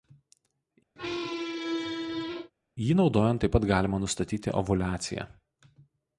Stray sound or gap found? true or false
true